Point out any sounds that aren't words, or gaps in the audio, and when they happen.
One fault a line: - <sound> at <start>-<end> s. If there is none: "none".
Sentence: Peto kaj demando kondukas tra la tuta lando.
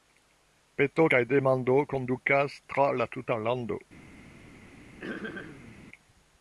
- throat clearing at 5.0-5.8 s